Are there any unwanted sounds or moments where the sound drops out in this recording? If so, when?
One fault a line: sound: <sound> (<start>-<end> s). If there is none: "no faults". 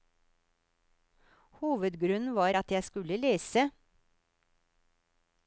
no faults